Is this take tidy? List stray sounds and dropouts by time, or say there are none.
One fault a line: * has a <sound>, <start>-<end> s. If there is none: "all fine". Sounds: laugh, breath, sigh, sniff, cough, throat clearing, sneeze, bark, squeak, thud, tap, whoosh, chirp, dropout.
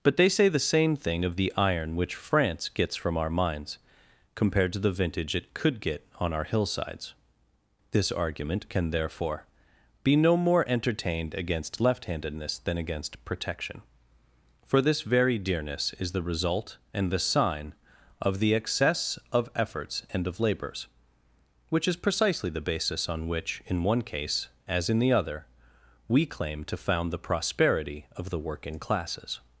all fine